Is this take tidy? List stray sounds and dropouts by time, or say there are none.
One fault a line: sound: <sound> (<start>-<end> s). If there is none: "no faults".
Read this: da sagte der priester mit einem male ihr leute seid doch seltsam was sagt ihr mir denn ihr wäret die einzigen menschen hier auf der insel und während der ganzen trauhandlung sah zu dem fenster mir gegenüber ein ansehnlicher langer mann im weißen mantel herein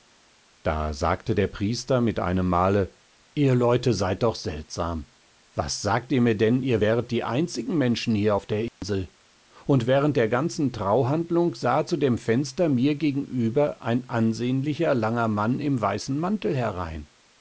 sound: dropout (8.7-8.8 s)